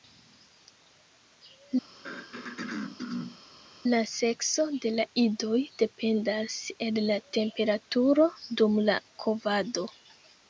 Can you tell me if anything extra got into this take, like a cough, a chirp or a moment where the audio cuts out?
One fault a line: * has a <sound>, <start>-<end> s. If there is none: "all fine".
* has a throat clearing, 2.0-3.4 s